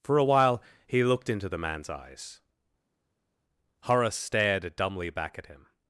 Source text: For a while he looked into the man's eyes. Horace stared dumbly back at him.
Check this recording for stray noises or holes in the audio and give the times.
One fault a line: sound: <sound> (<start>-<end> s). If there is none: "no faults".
no faults